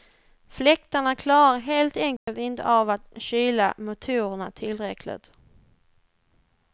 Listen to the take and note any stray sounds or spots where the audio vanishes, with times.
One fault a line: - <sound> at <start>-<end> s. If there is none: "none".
- dropout at 2.2-2.3 s